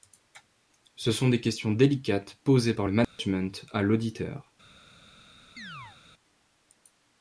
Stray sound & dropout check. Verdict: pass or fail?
fail